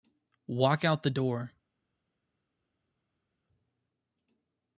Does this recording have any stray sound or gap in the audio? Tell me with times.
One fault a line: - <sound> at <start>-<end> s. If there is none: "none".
none